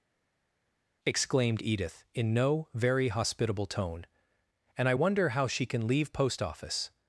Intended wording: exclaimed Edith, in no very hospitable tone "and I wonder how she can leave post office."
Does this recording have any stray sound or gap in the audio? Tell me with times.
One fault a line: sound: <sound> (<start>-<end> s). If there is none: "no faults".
no faults